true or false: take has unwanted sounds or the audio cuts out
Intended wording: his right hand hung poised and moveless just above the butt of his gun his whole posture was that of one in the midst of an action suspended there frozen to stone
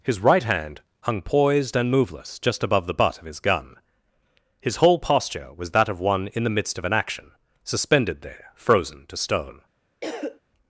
true